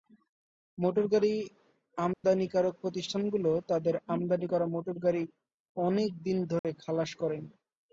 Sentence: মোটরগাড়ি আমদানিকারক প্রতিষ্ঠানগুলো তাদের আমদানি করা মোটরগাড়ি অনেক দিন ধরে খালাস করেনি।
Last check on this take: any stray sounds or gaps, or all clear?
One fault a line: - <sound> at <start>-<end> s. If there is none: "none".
- dropout at 2.1-2.2 s
- dropout at 6.6-6.6 s